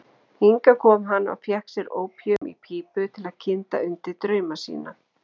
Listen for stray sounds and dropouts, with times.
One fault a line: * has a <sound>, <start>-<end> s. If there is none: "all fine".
* has a dropout, 2.4-2.4 s